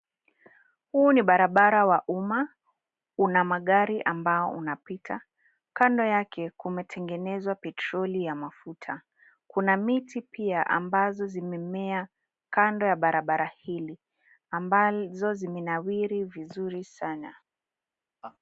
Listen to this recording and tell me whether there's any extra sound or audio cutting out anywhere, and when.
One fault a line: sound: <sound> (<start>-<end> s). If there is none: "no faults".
sound: laugh (18.2-18.4 s)